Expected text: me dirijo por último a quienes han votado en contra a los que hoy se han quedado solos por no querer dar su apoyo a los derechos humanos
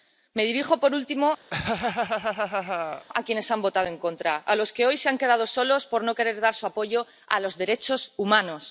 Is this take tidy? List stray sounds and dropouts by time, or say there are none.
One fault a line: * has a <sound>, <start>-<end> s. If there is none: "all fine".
* has a laugh, 1.5-3.1 s